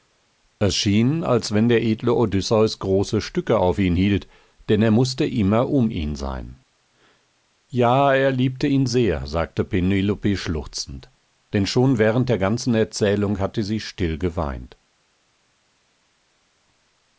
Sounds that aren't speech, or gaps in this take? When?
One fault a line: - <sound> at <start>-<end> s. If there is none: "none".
none